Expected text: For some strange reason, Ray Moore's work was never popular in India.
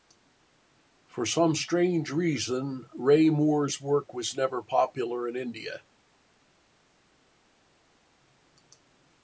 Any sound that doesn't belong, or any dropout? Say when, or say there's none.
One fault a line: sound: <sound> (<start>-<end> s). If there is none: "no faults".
no faults